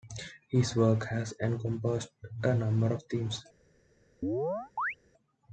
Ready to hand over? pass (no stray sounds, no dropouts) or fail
fail